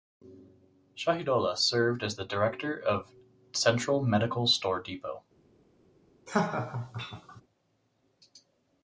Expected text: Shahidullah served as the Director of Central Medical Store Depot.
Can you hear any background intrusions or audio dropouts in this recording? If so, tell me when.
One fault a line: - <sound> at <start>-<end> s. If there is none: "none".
- laugh at 6.3-7.4 s